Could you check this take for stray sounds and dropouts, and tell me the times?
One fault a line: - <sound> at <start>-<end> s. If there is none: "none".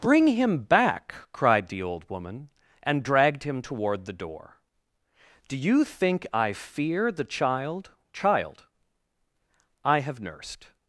none